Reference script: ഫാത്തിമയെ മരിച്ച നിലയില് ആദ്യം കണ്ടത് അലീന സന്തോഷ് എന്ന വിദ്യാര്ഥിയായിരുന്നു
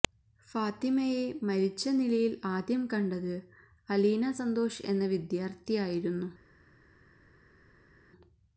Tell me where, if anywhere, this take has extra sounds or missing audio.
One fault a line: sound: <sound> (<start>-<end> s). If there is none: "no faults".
no faults